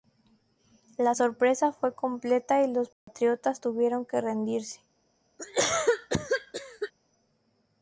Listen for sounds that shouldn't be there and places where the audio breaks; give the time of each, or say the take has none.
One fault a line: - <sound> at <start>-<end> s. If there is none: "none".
- dropout at 2.9-3.1 s
- cough at 5.4-6.9 s